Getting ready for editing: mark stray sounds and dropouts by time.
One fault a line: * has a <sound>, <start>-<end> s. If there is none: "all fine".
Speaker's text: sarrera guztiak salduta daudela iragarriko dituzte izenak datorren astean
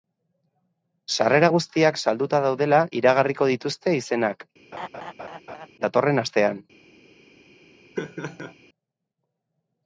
* has a laugh, 4.7-5.7 s
* has a laugh, 8.0-8.5 s